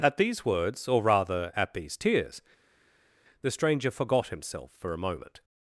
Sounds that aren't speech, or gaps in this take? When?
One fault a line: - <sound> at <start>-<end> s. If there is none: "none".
none